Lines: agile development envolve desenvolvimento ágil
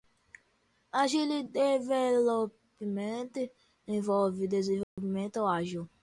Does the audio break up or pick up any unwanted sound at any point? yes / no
yes